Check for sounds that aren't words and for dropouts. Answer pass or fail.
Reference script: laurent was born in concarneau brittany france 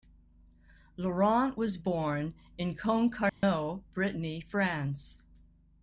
fail